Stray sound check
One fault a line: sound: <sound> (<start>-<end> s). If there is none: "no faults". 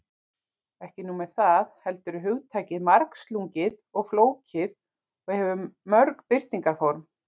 no faults